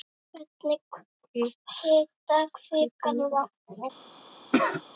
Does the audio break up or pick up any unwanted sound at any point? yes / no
yes